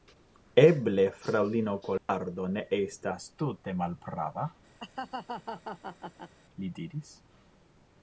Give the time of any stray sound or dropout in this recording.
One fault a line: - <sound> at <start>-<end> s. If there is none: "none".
- dropout at 2.0-2.1 s
- laugh at 4.8-6.3 s